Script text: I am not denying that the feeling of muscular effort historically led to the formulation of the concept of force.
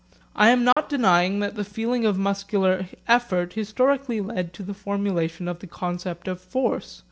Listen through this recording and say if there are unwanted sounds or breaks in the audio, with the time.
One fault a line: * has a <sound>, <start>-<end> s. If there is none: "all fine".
* has a dropout, 0.7-0.8 s